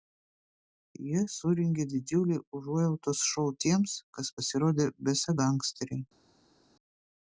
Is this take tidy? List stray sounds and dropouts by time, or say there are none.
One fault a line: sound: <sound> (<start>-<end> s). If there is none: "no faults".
no faults